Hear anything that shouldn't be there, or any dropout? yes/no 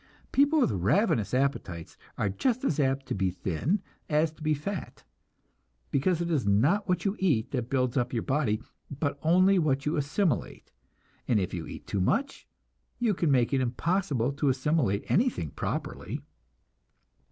no